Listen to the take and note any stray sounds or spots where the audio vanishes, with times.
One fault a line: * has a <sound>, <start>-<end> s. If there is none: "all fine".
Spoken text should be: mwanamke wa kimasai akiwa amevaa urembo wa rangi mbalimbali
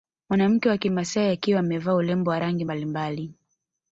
all fine